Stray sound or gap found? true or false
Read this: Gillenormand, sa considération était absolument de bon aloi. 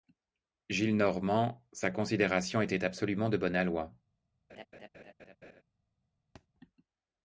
true